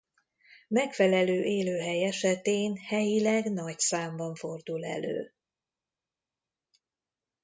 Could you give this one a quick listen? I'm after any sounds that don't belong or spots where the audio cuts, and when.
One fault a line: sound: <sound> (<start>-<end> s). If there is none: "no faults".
no faults